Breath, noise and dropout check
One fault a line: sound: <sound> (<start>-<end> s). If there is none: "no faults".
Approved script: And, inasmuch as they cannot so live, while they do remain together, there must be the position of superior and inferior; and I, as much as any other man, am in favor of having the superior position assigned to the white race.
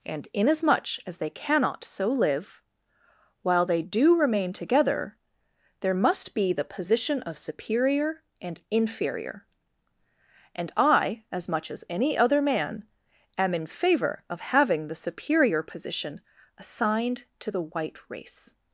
no faults